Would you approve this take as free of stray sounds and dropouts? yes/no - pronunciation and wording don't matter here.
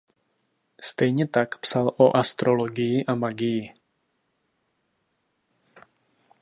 yes